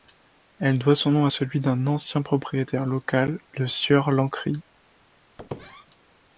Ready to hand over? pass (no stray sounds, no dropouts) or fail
fail